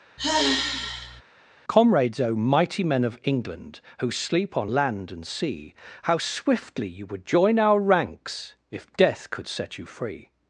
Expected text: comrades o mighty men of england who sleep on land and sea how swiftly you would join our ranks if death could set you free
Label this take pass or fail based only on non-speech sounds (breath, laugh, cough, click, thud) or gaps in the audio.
fail